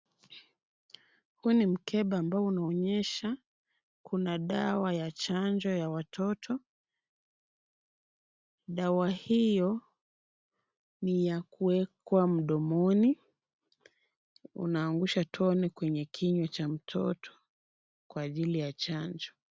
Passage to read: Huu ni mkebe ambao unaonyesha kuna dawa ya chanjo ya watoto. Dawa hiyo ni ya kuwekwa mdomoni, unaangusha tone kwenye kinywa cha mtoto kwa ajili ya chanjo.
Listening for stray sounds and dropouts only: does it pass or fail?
pass